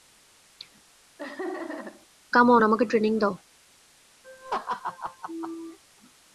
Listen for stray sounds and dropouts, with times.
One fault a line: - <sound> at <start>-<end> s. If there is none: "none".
- laugh at 1.2-2.1 s
- laugh at 4.2-5.8 s